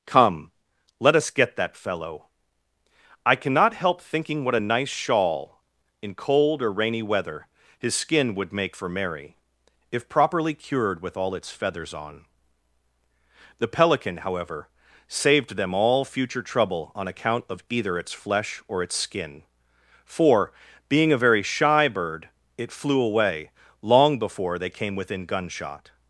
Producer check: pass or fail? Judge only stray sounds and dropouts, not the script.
pass